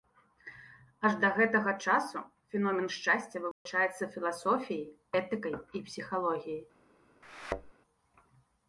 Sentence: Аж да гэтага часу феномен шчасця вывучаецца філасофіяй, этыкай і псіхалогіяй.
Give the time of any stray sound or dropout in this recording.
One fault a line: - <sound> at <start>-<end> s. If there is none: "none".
- dropout at 3.5-3.7 s
- thud at 7.2-7.7 s